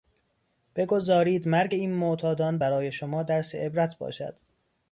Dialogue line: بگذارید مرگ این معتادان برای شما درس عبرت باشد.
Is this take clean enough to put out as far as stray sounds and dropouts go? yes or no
yes